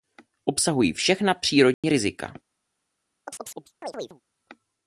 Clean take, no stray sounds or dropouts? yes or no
no